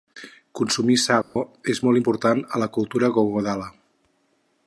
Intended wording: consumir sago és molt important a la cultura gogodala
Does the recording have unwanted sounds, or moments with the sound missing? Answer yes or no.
yes